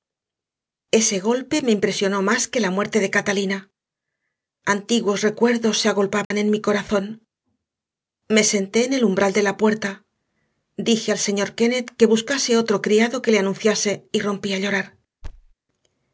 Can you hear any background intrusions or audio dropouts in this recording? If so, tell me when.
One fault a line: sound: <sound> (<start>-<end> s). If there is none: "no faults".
sound: dropout (6.2-6.3 s)
sound: thud (15.2-15.5 s)